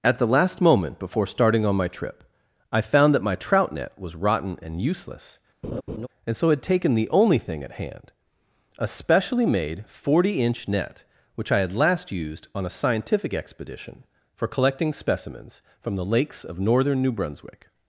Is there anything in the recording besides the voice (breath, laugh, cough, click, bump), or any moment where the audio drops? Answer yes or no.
yes